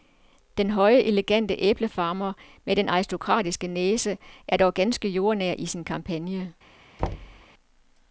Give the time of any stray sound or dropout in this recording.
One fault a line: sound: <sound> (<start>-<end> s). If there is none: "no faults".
sound: thud (7.0-7.4 s)